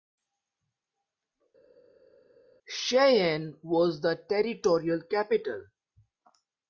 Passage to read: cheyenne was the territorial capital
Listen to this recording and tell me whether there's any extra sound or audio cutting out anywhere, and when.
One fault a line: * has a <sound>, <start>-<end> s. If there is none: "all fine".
all fine